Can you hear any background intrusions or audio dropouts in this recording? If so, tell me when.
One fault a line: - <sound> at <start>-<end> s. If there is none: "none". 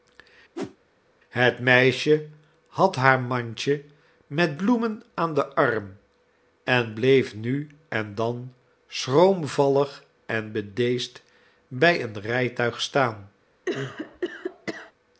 - whoosh at 0.6-0.8 s
- cough at 13.7-14.9 s